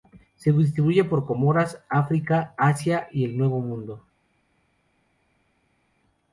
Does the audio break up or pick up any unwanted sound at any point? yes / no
no